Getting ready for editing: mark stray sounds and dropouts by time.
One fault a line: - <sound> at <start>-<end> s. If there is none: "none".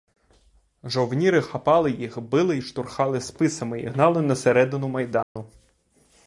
- dropout at 5.2-5.4 s